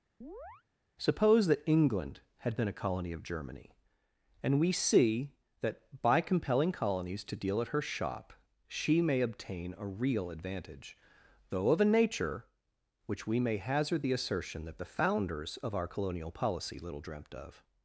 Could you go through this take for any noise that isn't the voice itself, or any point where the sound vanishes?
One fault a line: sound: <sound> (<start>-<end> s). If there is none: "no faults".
sound: chirp (0.2-0.6 s)